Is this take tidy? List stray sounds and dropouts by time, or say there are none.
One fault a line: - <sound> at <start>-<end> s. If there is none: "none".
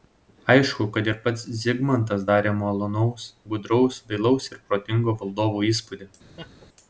- laugh at 6.4-6.7 s